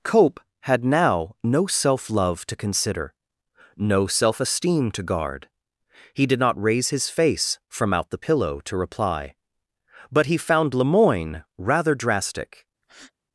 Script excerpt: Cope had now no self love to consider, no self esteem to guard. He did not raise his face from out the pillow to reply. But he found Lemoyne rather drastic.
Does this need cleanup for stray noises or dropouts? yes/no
yes